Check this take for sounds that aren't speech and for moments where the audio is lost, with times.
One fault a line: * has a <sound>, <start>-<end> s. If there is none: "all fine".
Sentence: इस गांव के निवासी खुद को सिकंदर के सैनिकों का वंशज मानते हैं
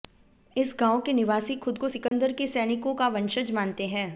* has a dropout, 2.1-2.1 s